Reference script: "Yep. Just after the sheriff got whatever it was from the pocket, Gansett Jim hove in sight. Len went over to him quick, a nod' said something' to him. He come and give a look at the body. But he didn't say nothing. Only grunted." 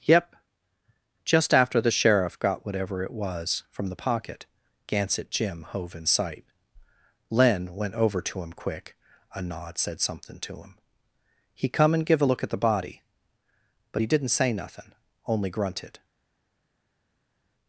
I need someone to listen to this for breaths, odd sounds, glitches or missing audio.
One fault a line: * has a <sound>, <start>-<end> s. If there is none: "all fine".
all fine